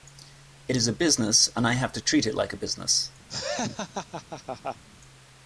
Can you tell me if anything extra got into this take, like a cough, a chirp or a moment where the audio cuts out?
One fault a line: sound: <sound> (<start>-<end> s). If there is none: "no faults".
sound: laugh (3.3-4.8 s)